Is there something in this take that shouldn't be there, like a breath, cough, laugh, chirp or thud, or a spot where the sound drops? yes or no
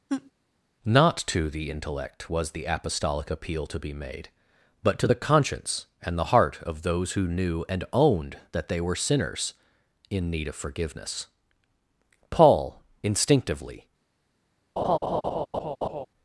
yes